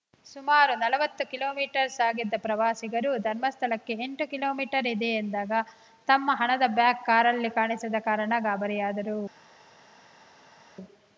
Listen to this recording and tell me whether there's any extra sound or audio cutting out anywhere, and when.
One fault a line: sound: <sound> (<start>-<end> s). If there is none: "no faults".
no faults